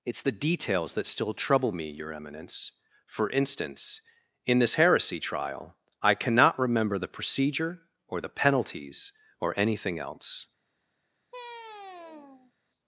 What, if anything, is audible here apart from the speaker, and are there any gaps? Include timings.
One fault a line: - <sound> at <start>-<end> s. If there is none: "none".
- sigh at 11.3-12.5 s